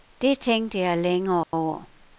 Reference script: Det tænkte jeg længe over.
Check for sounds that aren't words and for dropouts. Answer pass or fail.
fail